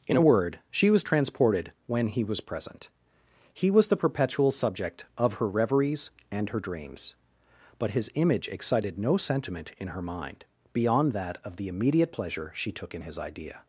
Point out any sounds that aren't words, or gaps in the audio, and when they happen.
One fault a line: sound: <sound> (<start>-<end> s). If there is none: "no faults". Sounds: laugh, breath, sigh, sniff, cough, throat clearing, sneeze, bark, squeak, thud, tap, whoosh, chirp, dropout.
no faults